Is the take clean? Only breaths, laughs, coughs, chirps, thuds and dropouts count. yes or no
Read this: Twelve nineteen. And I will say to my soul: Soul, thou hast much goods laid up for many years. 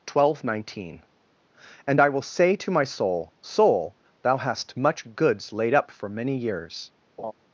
no